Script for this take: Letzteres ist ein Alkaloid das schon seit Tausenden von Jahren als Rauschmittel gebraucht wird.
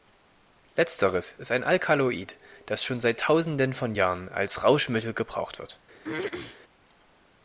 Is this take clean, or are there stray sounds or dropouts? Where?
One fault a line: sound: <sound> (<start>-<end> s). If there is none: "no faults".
sound: throat clearing (6.0-6.6 s)